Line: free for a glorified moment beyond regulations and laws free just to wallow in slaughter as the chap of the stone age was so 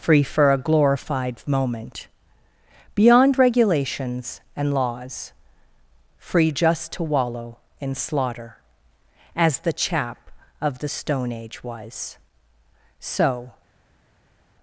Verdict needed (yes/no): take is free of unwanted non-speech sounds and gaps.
yes